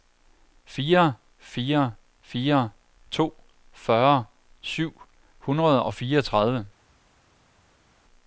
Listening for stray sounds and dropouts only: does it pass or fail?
pass